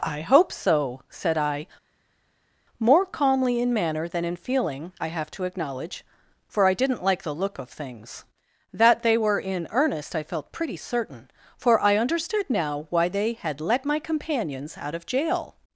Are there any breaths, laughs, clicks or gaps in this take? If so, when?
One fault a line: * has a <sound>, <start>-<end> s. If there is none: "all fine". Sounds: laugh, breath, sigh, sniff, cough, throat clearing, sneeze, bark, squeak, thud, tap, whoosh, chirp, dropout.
all fine